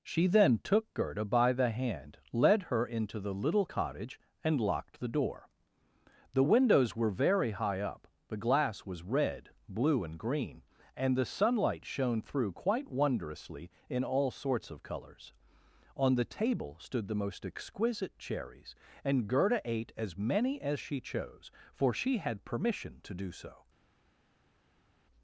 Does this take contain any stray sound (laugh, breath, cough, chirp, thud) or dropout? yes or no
no